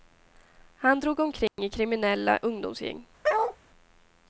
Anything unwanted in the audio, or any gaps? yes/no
yes